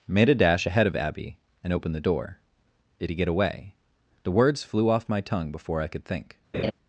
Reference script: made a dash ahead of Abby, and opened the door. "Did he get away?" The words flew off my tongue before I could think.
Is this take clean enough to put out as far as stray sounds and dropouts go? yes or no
no